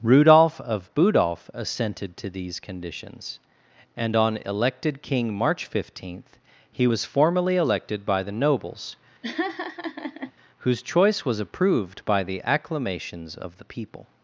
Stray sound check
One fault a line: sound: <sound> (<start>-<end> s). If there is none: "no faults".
sound: laugh (9.2-10.3 s)